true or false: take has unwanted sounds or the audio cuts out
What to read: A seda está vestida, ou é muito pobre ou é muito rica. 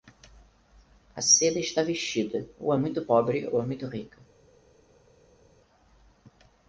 false